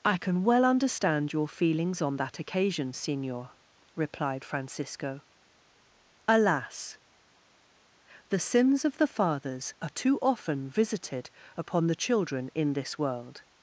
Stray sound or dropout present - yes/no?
no